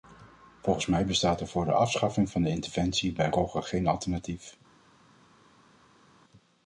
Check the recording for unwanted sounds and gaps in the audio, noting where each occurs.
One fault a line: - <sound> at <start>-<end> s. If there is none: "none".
none